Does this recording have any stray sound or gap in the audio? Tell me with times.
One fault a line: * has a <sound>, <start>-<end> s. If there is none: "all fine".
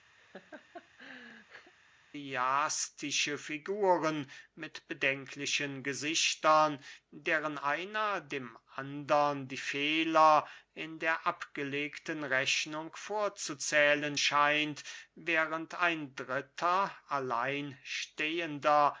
* has a laugh, 0.2-1.7 s